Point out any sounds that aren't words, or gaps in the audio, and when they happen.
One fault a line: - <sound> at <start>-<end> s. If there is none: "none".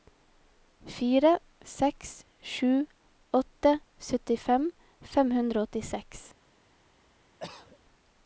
- cough at 7.4-7.8 s